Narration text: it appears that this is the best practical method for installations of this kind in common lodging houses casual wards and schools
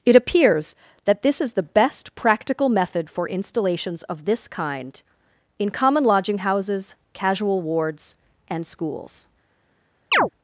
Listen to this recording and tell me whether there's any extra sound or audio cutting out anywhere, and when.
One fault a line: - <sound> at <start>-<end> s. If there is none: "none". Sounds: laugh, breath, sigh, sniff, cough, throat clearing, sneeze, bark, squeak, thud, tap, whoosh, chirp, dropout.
- chirp at 10.1-10.3 s